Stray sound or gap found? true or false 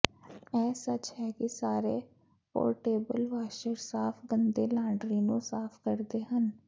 false